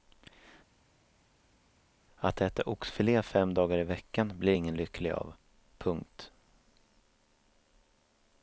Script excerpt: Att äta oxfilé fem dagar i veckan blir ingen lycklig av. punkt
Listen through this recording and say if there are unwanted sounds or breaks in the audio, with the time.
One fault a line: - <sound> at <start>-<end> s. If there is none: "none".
none